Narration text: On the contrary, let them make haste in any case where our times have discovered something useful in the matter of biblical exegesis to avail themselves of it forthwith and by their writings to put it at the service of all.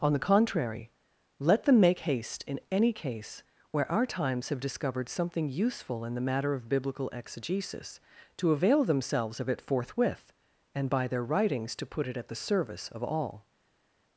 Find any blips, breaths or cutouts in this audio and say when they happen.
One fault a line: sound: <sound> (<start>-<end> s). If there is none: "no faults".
no faults